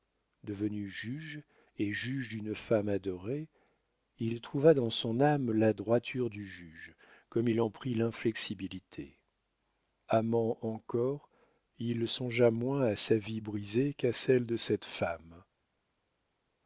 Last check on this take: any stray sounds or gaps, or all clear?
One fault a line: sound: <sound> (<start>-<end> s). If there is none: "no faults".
no faults